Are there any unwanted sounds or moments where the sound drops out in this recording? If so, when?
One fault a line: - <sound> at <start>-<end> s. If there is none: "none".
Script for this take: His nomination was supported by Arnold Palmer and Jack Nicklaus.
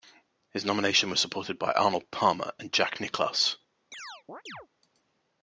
- chirp at 3.9-4.7 s